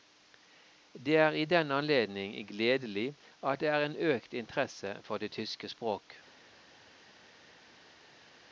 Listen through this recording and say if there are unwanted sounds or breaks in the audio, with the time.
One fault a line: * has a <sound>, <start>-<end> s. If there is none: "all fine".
all fine